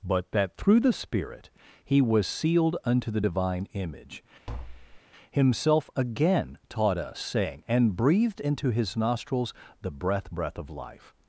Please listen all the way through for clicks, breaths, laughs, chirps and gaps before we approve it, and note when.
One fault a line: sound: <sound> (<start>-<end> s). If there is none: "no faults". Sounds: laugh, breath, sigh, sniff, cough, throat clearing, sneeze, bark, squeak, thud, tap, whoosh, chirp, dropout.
sound: tap (4.5-5.0 s)